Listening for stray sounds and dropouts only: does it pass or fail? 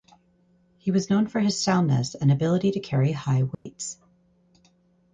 fail